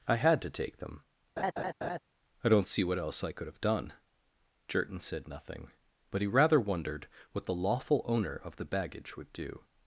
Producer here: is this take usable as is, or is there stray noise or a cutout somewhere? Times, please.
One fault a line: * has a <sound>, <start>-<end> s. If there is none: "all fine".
* has a laugh, 1.4-2.0 s